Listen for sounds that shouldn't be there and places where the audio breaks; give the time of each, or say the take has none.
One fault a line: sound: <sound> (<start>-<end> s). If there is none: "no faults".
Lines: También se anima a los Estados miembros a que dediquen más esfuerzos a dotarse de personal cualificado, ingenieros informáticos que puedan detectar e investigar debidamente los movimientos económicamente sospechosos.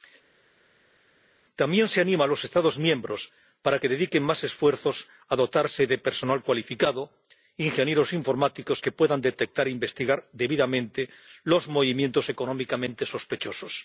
no faults